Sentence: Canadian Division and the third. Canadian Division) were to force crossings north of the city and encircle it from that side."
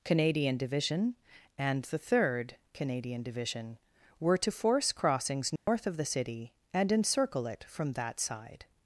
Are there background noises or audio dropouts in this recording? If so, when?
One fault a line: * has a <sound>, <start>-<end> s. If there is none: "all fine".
* has a dropout, 5.6-5.7 s